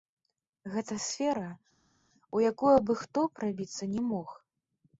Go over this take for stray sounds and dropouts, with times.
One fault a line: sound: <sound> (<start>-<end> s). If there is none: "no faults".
no faults